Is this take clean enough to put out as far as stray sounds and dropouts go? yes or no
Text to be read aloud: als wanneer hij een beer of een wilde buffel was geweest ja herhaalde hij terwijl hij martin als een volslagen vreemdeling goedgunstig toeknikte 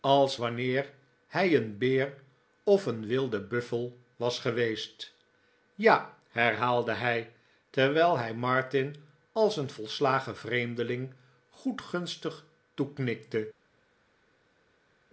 yes